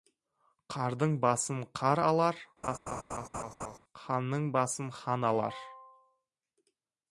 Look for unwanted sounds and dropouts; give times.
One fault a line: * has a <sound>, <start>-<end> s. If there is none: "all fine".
* has a laugh, 2.6-3.8 s